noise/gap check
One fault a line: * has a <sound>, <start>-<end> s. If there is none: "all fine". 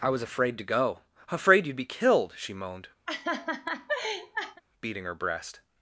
* has a laugh, 3.1-4.6 s